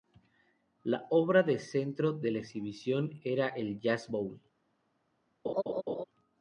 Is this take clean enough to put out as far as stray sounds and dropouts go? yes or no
no